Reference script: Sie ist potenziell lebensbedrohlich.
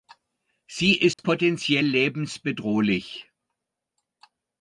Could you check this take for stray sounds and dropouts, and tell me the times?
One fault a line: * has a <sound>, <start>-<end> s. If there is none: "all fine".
* has a dropout, 1.1-1.2 s